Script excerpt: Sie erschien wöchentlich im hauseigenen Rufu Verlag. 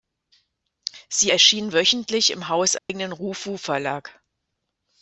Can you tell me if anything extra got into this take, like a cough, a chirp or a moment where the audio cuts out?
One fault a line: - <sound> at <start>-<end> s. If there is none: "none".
- dropout at 2.8-2.9 s